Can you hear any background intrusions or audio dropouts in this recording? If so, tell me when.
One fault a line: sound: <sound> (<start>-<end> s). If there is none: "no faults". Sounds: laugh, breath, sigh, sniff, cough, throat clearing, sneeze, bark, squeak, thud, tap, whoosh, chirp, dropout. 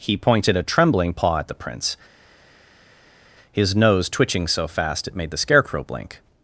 no faults